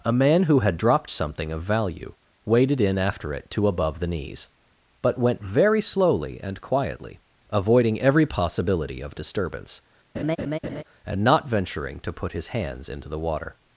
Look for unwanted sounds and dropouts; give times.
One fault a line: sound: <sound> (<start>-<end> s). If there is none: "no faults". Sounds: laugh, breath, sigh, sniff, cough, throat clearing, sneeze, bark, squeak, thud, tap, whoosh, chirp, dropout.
sound: laugh (10.1-10.8 s)